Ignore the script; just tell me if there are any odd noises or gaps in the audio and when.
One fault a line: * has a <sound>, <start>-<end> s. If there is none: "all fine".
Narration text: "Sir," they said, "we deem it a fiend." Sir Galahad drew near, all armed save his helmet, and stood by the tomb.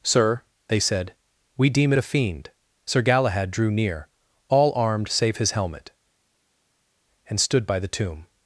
all fine